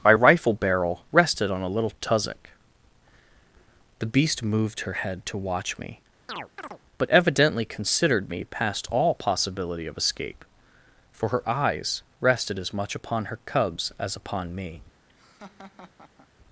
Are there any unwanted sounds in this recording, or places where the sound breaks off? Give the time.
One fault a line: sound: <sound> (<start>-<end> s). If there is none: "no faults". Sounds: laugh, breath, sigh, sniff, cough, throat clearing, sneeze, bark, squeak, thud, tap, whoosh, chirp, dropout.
sound: chirp (6.3-6.8 s)
sound: laugh (15.1-16.3 s)